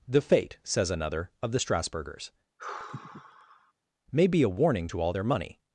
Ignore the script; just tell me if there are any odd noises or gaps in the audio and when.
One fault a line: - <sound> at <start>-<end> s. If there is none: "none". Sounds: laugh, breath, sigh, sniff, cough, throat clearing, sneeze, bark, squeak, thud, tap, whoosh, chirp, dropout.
- sigh at 2.6-3.7 s